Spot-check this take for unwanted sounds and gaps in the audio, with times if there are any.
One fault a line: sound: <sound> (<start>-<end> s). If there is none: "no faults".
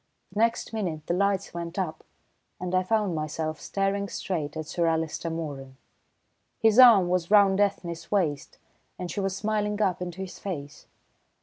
no faults